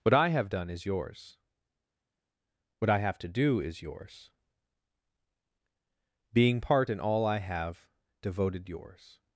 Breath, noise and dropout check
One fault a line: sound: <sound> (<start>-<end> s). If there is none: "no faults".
no faults